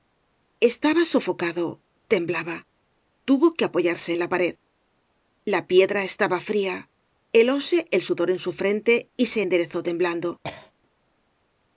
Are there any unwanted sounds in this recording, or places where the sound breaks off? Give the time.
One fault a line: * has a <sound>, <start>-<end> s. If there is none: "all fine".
* has a cough, 10.4-10.7 s